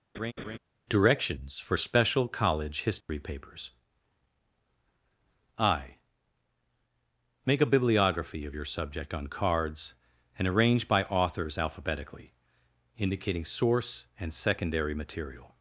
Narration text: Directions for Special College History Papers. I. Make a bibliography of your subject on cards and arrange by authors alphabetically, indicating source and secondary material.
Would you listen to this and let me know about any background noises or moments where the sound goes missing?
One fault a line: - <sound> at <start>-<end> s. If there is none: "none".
- laugh at 0.1-0.6 s
- dropout at 3.0-3.1 s